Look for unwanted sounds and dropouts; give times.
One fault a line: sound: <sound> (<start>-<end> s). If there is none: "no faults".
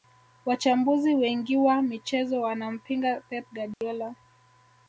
sound: dropout (3.7-3.8 s)